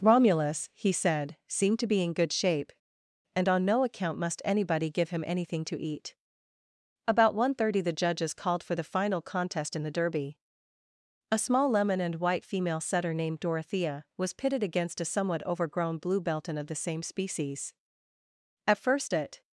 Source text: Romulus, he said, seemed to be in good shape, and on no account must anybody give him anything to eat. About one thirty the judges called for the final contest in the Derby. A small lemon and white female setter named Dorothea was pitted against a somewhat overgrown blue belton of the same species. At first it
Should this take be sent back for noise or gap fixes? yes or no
no